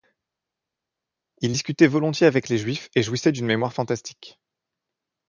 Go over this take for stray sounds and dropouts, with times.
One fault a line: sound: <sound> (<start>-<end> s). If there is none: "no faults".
no faults